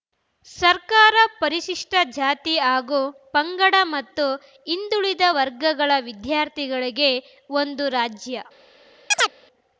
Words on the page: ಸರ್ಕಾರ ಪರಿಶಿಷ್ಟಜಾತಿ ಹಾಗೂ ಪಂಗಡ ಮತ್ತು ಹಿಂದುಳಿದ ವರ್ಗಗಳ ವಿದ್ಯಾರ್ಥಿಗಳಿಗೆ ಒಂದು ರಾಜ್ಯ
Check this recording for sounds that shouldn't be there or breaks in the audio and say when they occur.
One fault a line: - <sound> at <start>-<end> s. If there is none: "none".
- chirp at 9.1-9.3 s